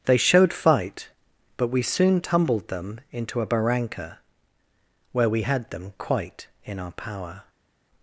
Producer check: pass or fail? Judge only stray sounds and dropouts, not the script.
pass